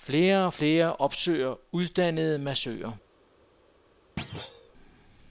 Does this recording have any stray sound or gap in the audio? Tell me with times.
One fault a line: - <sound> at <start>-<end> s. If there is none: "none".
- thud at 4.2-4.7 s